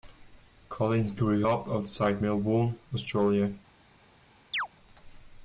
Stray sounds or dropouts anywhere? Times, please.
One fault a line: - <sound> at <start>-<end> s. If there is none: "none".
- chirp at 4.5-4.7 s